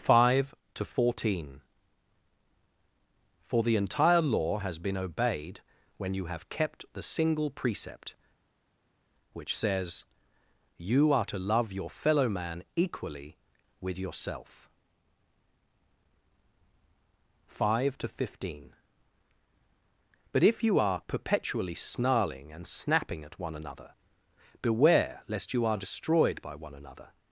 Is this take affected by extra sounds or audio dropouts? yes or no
no